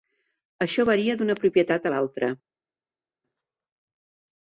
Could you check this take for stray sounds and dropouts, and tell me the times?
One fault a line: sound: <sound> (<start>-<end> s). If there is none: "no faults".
no faults